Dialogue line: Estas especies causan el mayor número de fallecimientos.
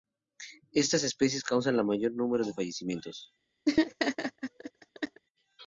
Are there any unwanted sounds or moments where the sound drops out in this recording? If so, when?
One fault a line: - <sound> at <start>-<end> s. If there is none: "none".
- laugh at 3.7-5.2 s